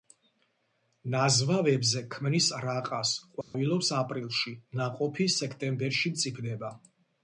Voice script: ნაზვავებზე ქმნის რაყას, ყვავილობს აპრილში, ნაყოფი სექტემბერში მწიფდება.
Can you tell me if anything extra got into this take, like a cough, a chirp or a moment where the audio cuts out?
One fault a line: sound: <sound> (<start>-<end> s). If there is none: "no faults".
sound: dropout (3.4-3.5 s)